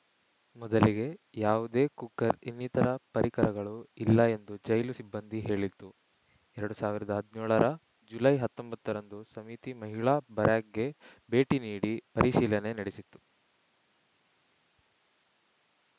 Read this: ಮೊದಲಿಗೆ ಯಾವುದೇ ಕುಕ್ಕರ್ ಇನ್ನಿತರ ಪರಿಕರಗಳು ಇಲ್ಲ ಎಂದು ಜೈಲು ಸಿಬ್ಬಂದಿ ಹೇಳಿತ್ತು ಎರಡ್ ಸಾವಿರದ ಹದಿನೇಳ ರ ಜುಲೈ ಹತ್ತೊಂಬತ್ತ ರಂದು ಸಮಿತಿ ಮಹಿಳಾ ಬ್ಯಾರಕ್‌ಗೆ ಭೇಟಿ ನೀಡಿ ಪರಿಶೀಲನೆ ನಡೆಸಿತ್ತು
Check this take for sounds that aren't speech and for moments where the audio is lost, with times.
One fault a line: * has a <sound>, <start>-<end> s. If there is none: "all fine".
all fine